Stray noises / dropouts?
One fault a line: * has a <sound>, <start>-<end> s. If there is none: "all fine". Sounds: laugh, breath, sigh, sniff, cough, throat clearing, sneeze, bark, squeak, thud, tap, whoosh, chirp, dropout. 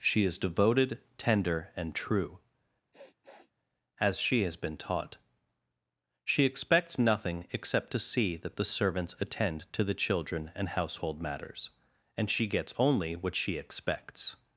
* has a sniff, 2.9-3.5 s